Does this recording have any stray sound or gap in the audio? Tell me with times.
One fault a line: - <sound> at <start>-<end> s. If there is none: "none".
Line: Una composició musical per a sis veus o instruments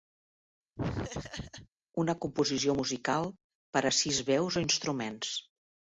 - laugh at 0.8-1.7 s